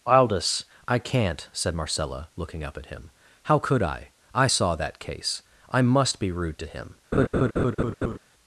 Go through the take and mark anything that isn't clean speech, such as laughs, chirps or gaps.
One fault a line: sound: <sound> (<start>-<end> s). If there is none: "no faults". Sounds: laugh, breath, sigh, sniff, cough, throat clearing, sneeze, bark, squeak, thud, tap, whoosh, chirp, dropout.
sound: laugh (7.1-8.2 s)